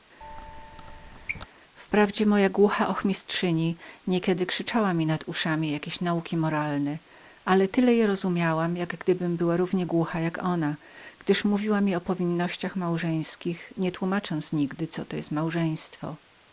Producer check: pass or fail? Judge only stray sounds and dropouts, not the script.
fail